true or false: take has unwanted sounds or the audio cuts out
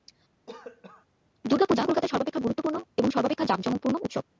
true